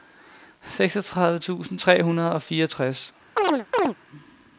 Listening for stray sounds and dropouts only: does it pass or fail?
fail